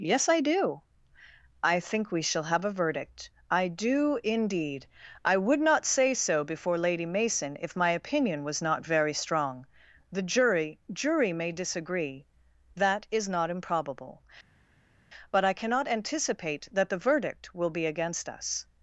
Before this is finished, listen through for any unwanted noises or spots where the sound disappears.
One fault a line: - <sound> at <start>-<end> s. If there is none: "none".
none